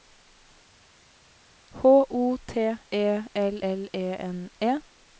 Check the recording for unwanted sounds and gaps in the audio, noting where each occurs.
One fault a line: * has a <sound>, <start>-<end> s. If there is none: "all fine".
all fine